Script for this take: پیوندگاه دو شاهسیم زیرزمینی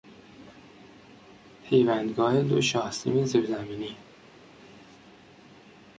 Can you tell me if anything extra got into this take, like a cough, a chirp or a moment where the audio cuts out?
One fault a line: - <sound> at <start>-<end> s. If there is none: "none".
none